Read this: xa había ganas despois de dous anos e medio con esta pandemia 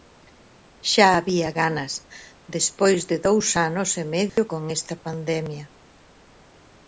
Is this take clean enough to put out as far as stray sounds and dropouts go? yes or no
no